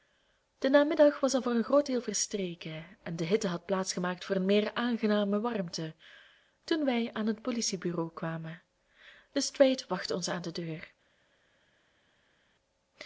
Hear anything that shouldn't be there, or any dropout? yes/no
no